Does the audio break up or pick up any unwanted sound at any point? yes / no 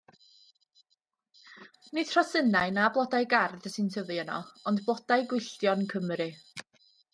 no